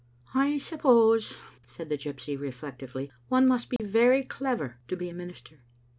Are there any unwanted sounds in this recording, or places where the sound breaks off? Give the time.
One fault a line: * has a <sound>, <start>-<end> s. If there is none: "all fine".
* has a dropout, 3.8-3.8 s